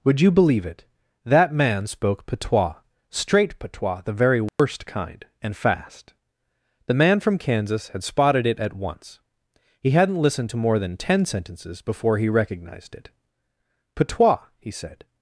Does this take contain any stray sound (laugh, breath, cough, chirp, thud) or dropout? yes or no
yes